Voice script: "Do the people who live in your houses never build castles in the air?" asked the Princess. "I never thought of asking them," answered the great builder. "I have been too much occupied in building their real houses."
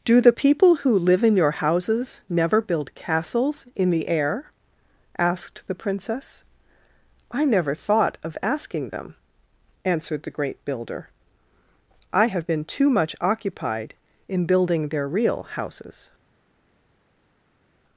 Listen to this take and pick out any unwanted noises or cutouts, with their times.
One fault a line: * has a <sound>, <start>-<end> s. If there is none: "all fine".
all fine